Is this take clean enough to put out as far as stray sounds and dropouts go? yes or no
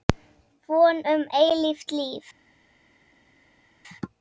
yes